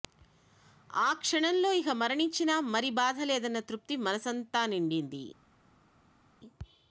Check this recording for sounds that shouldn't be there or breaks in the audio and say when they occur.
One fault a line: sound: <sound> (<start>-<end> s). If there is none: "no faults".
no faults